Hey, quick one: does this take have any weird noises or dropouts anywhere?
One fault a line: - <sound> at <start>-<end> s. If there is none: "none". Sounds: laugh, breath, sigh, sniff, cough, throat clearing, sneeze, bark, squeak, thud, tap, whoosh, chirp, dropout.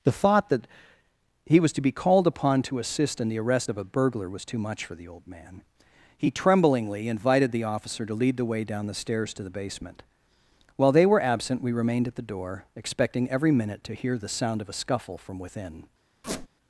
- squeak at 16.2-16.5 s